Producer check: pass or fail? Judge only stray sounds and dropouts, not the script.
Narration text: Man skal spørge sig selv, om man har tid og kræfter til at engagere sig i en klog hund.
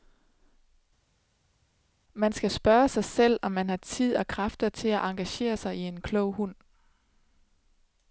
pass